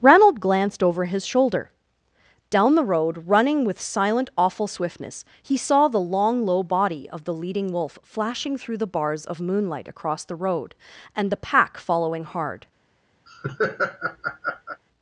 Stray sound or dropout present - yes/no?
yes